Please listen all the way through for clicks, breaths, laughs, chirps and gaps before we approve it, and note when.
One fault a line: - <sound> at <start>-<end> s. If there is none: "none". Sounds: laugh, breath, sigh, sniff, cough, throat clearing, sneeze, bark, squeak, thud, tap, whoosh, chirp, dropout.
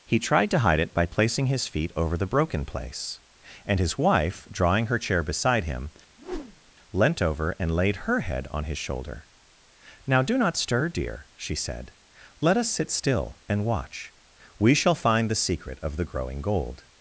- whoosh at 6.2-6.7 s